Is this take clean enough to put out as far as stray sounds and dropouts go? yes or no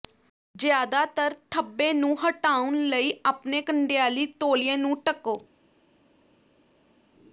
yes